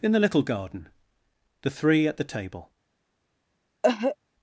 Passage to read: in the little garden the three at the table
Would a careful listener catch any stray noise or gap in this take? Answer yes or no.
yes